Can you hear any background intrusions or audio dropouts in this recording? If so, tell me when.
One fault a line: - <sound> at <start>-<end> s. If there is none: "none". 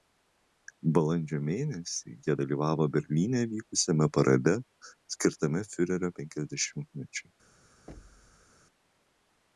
- thud at 7.9-8.5 s